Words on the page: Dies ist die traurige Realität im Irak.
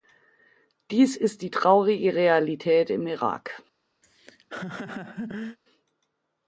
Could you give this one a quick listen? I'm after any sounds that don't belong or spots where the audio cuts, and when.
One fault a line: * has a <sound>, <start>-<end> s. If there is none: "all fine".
* has a laugh, 4.0-5.6 s